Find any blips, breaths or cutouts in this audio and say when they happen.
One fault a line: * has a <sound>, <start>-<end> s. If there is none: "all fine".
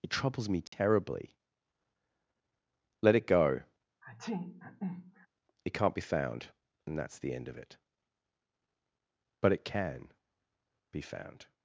* has a dropout, 0.7-0.7 s
* has a sneeze, 4.0-5.3 s